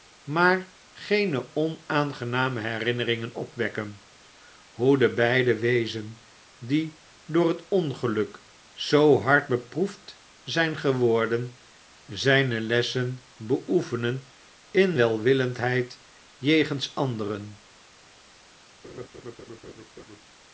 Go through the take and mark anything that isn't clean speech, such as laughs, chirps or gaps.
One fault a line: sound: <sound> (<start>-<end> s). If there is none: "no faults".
sound: laugh (18.8-20.2 s)